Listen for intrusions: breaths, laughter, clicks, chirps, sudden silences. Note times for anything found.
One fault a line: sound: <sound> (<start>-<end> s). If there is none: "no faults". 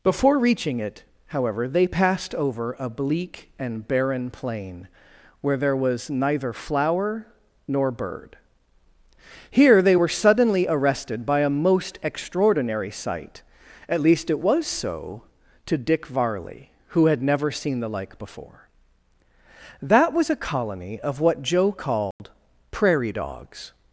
sound: dropout (22.1-22.2 s)